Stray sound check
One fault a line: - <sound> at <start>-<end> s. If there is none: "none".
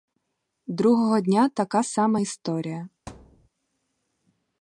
- thud at 3.1-3.5 s